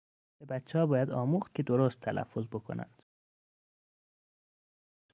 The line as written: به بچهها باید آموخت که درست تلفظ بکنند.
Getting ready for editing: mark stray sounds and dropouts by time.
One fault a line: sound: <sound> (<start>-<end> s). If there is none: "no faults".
no faults